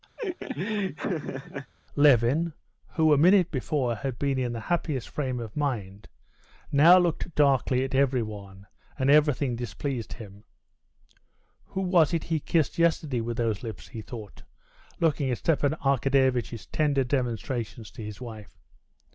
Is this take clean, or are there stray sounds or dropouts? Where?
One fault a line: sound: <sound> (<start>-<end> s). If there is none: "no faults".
sound: laugh (0.2-1.7 s)